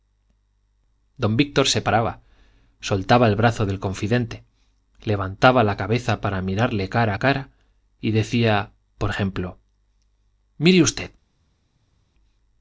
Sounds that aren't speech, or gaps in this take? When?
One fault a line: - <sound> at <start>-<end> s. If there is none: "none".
none